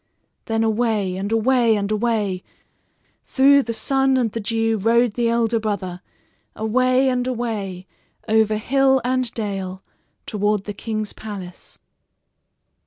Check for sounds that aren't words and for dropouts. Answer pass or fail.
pass